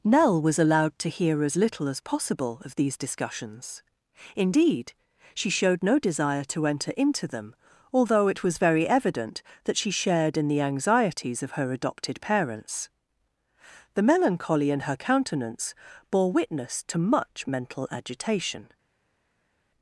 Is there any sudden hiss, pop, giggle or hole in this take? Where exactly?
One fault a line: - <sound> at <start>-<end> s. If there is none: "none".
none